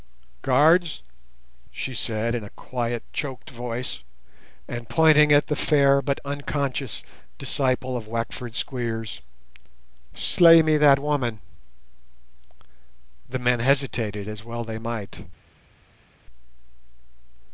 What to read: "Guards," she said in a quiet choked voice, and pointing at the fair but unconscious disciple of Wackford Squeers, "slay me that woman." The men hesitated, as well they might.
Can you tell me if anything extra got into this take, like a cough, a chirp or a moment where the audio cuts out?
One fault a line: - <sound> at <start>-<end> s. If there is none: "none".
none